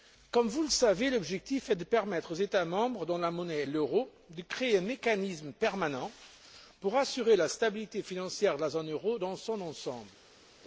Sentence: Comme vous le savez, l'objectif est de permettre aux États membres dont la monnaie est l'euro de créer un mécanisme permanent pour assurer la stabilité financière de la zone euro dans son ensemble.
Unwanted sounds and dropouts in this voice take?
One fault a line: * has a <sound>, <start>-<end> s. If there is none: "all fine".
all fine